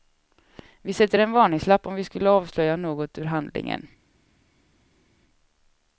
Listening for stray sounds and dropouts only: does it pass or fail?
pass